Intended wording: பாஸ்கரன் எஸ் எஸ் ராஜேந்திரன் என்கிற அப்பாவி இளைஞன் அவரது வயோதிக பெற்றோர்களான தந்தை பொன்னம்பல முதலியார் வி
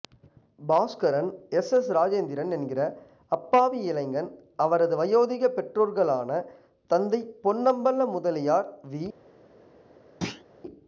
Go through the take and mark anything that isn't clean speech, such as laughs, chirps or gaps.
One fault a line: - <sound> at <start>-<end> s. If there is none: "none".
- thud at 10.2-10.4 s